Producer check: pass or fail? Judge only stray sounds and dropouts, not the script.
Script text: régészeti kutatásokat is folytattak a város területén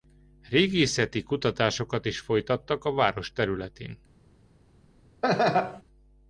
fail